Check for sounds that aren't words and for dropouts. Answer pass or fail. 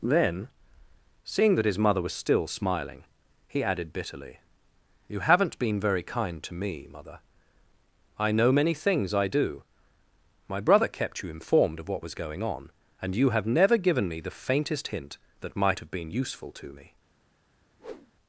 fail